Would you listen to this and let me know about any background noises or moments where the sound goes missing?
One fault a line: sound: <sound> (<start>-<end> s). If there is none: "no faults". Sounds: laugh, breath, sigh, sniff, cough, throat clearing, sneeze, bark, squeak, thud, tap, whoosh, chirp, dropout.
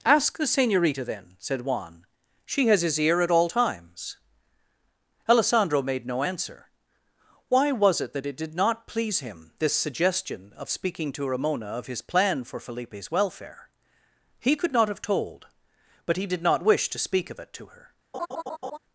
sound: laugh (18.1-18.8 s)